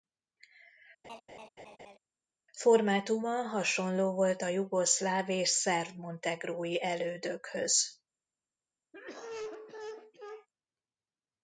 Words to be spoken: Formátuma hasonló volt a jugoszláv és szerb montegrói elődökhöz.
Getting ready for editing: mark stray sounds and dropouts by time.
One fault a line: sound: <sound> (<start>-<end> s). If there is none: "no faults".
sound: laugh (1.0-2.0 s)
sound: cough (8.9-10.5 s)